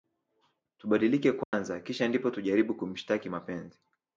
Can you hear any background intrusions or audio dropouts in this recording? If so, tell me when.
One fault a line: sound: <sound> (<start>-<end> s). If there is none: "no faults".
sound: dropout (1.4-1.5 s)